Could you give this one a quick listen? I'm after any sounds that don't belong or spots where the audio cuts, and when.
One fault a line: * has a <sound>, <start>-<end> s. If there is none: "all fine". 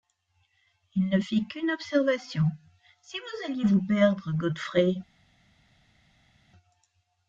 all fine